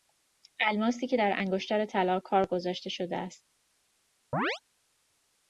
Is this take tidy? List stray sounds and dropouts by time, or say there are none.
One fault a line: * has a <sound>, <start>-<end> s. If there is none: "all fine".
* has a chirp, 4.3-4.6 s